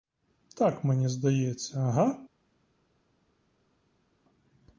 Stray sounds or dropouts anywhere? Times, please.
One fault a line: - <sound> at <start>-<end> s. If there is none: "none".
none